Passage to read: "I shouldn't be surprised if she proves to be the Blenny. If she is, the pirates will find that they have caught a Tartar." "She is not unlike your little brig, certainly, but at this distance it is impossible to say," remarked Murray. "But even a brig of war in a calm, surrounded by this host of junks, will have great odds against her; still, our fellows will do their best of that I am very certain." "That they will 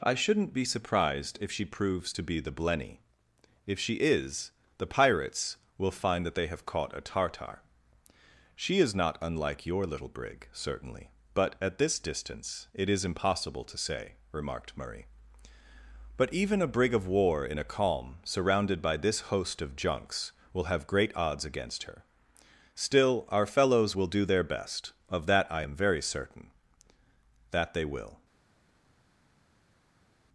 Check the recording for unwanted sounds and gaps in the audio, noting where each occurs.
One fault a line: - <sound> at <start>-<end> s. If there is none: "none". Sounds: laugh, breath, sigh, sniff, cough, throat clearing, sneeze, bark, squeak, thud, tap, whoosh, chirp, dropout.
none